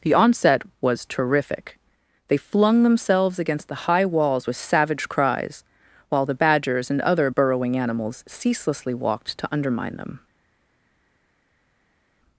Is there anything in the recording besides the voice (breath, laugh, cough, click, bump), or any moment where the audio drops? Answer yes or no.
no